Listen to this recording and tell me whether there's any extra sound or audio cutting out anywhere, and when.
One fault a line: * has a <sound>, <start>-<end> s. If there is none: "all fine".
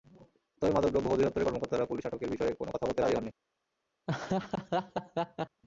* has a laugh, 4.1-5.6 s